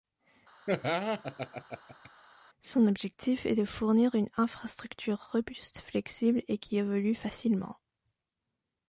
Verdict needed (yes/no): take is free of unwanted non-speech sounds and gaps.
no